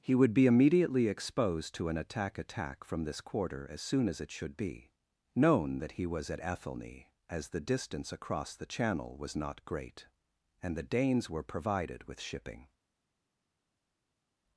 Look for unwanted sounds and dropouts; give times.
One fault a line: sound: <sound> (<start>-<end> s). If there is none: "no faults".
no faults